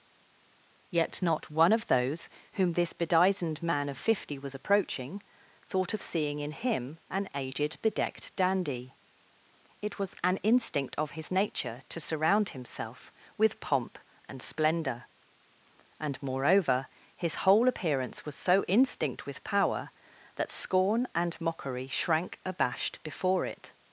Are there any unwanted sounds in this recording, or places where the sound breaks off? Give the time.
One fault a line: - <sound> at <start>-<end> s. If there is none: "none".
none